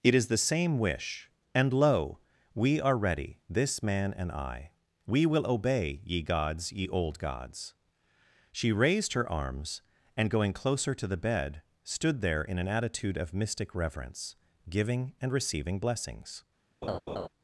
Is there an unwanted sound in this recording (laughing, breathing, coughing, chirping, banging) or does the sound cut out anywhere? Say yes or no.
yes